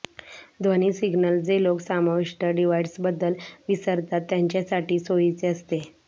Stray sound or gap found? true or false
false